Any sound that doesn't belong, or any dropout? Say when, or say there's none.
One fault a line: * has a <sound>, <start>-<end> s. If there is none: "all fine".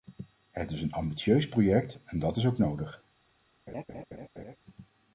* has a laugh, 3.7-4.6 s